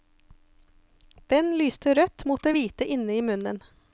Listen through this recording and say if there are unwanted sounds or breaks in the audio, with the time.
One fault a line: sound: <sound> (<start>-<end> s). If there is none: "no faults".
no faults